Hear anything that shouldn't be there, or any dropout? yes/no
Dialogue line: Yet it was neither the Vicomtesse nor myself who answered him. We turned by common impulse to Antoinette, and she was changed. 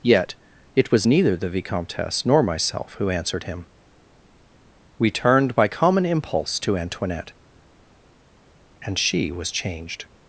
no